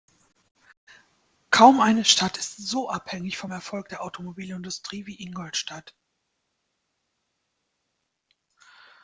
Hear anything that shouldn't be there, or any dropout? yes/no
no